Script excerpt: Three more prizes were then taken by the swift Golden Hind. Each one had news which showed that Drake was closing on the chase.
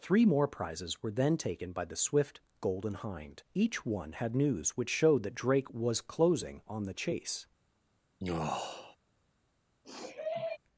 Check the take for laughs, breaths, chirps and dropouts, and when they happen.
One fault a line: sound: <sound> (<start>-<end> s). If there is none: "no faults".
sound: sigh (8.2-9.0 s)
sound: sniff (9.8-10.6 s)